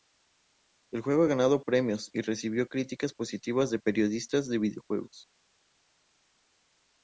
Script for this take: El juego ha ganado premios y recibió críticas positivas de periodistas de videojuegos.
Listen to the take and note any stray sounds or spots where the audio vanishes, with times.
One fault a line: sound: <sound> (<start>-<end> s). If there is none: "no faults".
no faults